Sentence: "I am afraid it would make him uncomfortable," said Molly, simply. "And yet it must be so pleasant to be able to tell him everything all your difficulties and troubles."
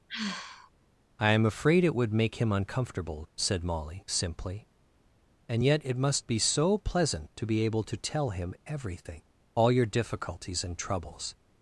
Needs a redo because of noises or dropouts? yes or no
yes